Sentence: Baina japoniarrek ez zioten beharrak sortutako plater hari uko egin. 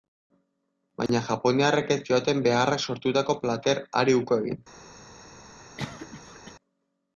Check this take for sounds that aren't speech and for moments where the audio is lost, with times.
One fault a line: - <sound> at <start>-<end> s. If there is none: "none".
- dropout at 1.1-1.1 s
- cough at 5.8-6.5 s